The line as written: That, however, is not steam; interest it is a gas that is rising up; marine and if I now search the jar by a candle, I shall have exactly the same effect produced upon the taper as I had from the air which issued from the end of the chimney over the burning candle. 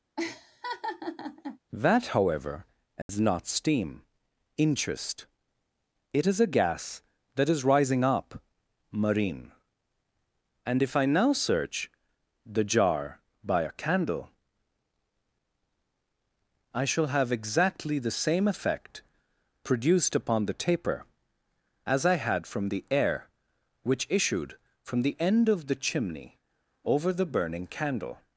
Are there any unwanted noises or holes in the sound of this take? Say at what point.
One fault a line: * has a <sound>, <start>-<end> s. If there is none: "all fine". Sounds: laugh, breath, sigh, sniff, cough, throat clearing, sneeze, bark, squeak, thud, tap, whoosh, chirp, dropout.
* has a laugh, 0.2-1.6 s
* has a dropout, 3.0-3.1 s